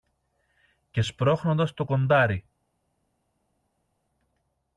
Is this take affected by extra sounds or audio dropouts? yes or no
no